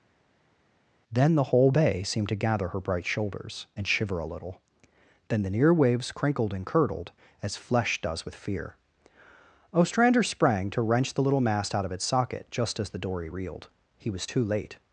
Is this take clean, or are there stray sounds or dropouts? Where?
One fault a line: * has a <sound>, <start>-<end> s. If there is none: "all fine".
all fine